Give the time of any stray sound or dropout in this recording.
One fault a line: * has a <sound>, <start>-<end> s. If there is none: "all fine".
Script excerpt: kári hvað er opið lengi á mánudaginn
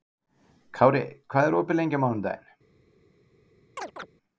* has a chirp, 3.8-4.1 s